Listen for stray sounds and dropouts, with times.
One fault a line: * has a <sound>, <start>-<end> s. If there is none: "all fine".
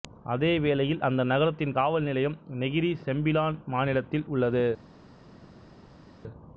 all fine